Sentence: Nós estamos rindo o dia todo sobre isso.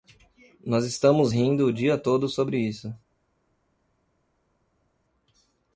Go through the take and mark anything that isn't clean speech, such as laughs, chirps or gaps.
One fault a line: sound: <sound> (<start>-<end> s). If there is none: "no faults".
no faults